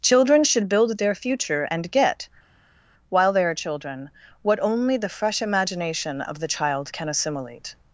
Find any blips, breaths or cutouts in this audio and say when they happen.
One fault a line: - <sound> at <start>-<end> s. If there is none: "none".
none